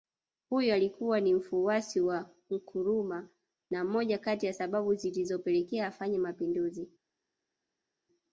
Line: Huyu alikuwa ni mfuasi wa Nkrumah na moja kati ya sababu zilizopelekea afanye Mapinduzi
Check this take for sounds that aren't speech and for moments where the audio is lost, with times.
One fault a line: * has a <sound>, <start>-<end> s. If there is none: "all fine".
all fine